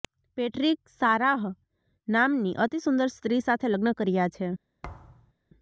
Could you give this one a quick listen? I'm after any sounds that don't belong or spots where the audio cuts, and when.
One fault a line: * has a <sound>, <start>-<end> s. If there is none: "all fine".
* has a thud, 4.8-5.3 s